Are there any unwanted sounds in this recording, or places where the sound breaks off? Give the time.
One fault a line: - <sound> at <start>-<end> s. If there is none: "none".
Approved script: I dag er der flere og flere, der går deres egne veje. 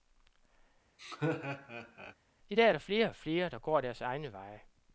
- laugh at 1.0-2.1 s